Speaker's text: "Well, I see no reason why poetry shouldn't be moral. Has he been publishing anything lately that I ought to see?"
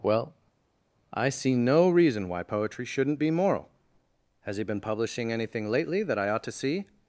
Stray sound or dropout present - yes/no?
no